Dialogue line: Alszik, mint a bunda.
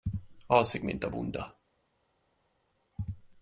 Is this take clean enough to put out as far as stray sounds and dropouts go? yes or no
yes